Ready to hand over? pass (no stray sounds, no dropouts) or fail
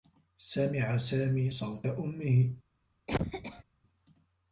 fail